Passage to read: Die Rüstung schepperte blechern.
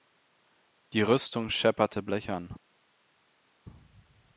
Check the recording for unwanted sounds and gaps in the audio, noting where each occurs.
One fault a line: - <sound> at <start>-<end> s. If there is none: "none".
none